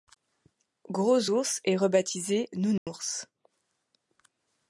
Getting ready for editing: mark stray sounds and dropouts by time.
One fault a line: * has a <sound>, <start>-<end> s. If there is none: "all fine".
* has a dropout, 2.8-2.9 s